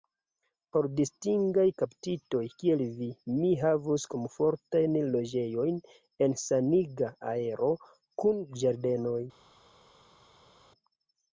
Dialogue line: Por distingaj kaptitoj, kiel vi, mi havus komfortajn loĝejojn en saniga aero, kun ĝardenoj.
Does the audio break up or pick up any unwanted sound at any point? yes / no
no